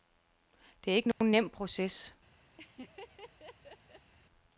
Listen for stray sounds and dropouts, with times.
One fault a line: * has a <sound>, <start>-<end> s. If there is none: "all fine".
* has a dropout, 1.1-1.2 s
* has a laugh, 2.6-4.1 s